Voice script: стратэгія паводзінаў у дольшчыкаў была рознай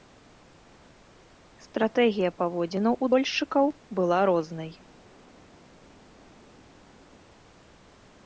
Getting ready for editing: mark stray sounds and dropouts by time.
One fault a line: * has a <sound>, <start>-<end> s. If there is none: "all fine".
all fine